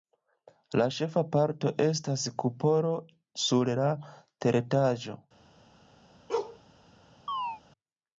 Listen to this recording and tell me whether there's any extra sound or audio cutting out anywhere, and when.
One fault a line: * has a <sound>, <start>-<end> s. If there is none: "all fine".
* has a bark, 6.3-6.6 s
* has a chirp, 7.3-7.6 s